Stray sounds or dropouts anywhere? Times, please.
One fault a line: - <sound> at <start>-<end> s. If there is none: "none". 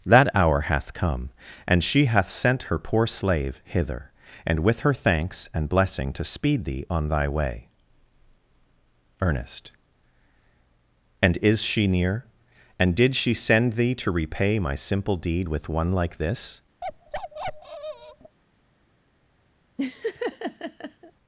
- bark at 16.8-18.4 s
- laugh at 19.8-21.1 s